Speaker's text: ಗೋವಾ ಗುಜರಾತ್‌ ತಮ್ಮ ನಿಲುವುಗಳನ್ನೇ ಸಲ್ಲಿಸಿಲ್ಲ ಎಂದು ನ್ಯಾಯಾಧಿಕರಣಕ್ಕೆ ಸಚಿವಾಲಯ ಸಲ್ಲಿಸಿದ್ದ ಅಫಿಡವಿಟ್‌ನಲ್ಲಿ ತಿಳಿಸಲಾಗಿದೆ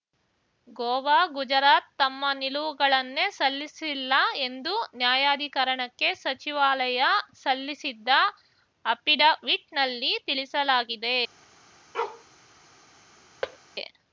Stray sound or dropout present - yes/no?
yes